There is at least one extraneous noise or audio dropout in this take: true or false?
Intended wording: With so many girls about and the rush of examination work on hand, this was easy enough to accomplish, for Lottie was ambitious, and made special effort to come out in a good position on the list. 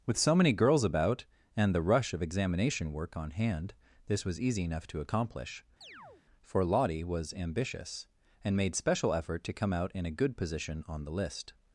true